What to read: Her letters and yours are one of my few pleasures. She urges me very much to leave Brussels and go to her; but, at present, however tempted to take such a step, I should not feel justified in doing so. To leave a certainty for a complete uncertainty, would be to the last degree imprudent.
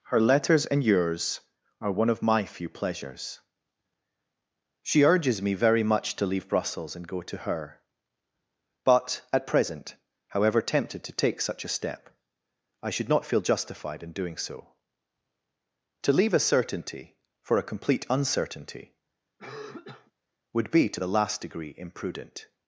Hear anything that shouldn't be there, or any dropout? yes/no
yes